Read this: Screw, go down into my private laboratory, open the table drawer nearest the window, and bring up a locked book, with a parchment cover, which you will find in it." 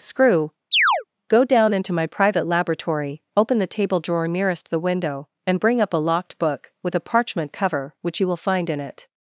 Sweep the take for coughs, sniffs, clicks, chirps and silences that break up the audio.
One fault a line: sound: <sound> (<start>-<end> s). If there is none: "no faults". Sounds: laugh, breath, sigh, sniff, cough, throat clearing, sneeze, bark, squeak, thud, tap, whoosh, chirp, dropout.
sound: chirp (0.7-1.0 s)